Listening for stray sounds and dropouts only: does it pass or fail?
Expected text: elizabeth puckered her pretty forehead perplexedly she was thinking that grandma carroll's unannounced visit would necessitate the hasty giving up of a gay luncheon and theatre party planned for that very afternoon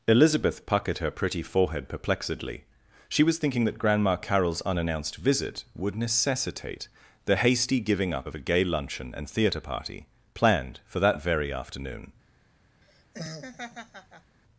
fail